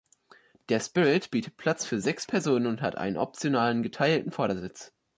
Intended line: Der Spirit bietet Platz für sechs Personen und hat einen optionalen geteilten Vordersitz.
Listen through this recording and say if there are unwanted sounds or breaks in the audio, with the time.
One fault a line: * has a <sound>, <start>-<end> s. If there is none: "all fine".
all fine